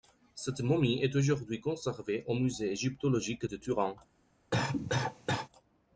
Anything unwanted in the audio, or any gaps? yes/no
yes